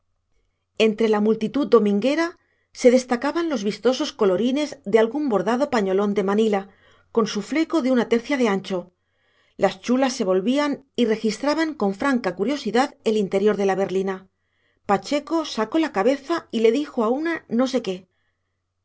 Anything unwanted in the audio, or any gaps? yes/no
no